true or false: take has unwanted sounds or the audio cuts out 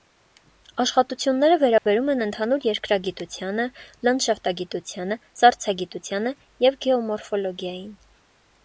true